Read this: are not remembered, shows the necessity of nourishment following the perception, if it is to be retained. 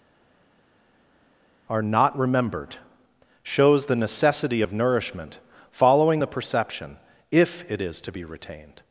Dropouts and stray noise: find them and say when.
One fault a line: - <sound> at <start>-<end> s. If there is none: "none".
none